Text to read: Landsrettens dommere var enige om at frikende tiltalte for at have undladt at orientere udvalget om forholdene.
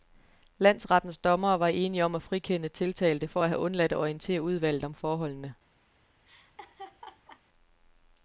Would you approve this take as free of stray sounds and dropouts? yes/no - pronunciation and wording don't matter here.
no